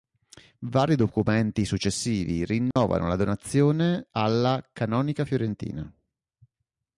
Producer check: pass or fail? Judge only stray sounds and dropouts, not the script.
fail